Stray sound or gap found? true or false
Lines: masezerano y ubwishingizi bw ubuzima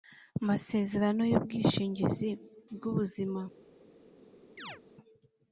true